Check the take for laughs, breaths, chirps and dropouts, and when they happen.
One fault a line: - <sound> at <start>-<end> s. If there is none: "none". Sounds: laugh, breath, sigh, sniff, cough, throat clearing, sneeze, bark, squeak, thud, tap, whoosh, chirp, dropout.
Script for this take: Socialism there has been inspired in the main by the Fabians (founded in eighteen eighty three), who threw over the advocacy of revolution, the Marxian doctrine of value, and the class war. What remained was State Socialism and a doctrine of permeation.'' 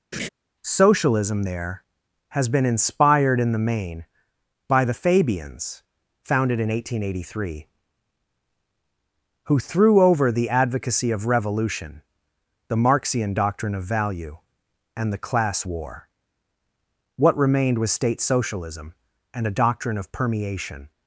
- laugh at 0.1-0.3 s